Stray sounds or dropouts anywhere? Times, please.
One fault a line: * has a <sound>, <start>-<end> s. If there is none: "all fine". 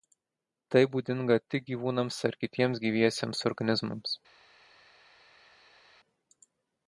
all fine